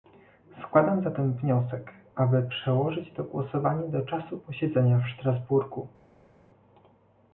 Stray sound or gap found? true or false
false